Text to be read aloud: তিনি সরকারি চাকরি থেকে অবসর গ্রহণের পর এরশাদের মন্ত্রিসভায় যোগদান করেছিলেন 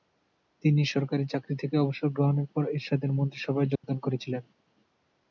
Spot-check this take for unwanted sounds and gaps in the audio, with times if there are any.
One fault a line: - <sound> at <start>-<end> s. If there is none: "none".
- dropout at 3.8-3.8 s